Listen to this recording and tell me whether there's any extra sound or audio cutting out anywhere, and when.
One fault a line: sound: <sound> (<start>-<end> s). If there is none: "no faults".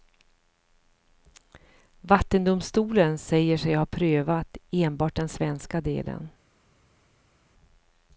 no faults